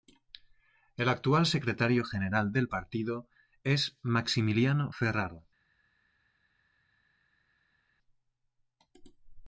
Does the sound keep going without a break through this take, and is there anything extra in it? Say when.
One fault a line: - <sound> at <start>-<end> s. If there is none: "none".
none